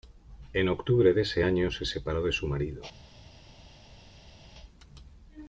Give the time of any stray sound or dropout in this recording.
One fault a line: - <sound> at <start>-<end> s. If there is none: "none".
none